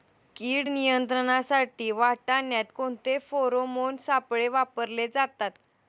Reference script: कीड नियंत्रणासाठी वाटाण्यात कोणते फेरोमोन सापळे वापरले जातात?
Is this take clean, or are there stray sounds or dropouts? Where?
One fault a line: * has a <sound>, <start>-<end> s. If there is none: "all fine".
all fine